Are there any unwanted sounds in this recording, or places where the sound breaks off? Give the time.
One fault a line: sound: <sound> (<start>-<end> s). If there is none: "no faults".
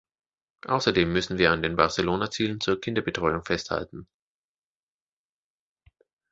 no faults